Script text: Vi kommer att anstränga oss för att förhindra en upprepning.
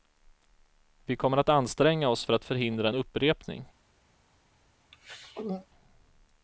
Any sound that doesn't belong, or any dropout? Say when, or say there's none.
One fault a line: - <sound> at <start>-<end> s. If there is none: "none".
- throat clearing at 4.9-5.7 s